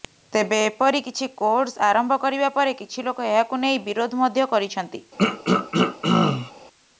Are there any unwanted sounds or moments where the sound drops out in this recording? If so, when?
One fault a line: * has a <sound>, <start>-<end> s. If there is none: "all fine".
* has a throat clearing, 5.2-6.5 s